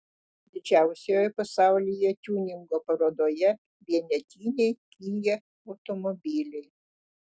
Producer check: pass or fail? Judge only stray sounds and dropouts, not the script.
pass